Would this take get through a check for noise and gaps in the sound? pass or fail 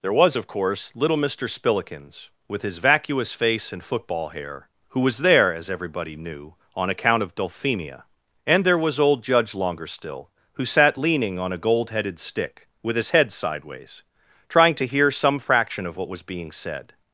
pass